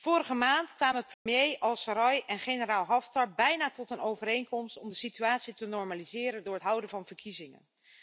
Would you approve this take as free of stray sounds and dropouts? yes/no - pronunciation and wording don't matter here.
no